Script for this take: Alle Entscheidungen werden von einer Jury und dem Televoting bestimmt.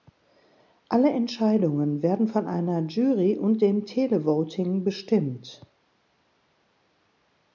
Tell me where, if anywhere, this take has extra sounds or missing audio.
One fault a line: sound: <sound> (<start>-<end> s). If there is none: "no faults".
no faults